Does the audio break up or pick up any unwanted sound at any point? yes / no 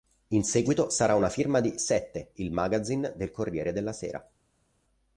no